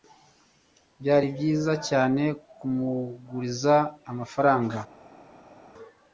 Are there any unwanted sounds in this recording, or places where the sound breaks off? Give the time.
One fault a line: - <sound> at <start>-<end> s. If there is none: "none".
none